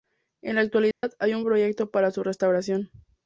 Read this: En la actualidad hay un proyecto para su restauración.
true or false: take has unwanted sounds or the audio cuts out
true